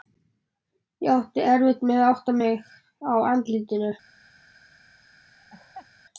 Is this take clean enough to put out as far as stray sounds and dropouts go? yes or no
no